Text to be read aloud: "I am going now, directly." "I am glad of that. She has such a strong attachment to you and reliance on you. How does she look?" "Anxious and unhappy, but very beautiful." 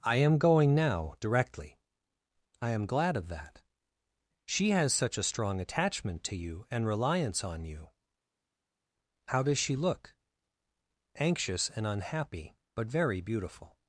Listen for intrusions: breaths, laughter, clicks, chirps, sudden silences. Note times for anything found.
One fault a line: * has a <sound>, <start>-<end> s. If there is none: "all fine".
all fine